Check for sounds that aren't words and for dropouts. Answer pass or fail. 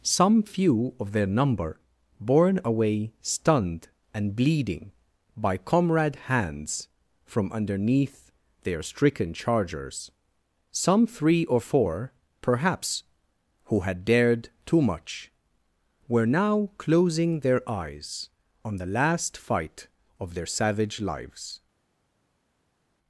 pass